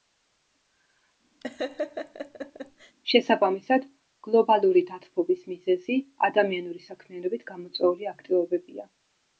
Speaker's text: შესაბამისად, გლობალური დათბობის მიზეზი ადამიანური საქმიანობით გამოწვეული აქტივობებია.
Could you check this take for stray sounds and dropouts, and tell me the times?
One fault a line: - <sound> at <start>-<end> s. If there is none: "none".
- laugh at 1.4-3.0 s